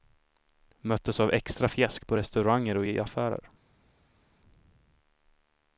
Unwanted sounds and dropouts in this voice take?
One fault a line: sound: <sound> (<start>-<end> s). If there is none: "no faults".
no faults